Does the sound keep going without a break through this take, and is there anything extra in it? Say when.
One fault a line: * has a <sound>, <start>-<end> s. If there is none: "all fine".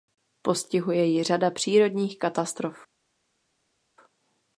all fine